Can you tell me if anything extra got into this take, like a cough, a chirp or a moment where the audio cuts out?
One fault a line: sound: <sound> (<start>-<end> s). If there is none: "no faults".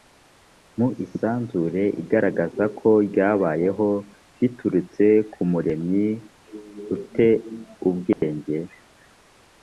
sound: dropout (8.1-8.2 s)